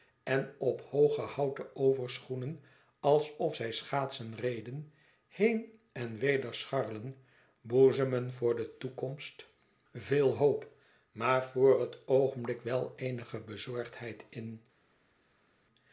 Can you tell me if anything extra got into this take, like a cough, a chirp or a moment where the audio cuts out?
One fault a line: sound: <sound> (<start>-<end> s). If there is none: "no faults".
no faults